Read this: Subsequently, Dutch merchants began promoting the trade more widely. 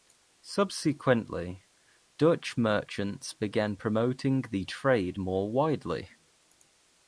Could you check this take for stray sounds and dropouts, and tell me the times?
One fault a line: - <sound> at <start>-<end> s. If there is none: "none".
none